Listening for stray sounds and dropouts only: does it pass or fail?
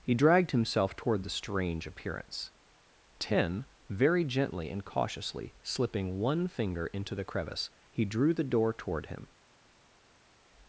pass